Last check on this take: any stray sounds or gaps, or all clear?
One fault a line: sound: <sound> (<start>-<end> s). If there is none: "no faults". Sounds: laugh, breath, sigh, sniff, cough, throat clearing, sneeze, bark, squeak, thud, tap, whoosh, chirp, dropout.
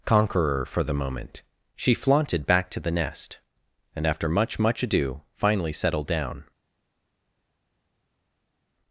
no faults